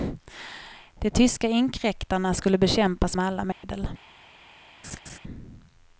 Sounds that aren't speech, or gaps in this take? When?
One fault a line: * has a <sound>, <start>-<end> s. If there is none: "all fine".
* has a dropout, 3.5-3.6 s
* has a laugh, 4.8-5.2 s